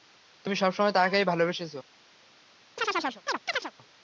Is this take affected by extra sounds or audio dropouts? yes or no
yes